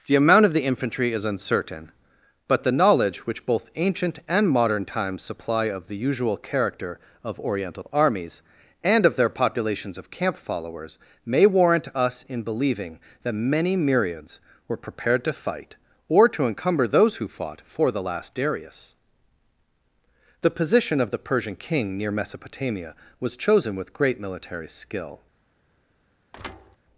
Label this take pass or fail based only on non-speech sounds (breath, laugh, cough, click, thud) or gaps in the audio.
fail